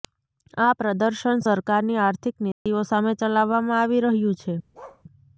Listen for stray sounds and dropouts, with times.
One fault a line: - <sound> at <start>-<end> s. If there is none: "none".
- dropout at 2.5-2.7 s
- bark at 4.7-5.0 s